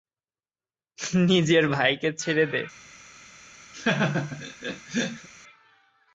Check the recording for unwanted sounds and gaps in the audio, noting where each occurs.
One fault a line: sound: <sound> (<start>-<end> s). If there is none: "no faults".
sound: laugh (3.7-5.3 s)